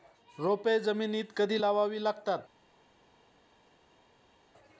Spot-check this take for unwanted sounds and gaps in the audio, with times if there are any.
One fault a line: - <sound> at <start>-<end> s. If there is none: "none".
none